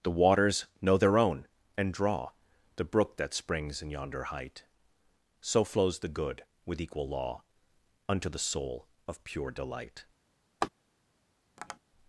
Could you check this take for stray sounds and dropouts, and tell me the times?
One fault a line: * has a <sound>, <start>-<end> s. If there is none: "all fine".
* has a laugh, 10.6-10.7 s
* has a tap, 11.6-11.8 s